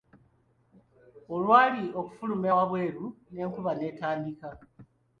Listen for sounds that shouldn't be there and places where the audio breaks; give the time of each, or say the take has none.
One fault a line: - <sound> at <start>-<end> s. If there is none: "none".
none